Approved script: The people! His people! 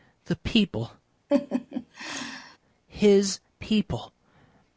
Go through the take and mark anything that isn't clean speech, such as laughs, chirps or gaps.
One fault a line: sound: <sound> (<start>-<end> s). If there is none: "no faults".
sound: laugh (1.3-2.6 s)